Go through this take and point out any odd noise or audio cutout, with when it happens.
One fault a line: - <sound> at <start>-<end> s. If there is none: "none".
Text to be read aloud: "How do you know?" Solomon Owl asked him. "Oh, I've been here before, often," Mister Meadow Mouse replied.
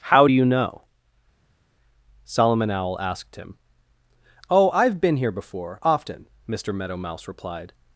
none